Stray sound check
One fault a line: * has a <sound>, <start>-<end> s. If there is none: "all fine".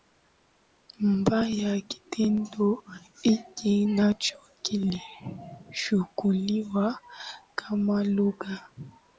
all fine